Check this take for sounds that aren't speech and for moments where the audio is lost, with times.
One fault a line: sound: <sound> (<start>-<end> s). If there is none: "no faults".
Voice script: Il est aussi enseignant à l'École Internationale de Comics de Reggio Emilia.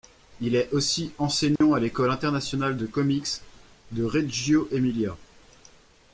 sound: dropout (1.6-1.6 s)